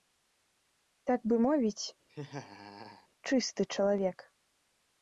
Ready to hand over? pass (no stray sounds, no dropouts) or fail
fail